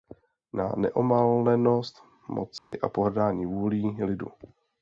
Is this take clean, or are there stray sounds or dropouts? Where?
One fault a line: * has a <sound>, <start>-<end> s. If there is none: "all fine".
* has a dropout, 2.6-2.7 s